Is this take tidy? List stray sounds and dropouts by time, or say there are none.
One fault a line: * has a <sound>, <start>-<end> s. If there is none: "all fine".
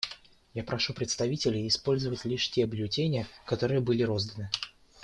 all fine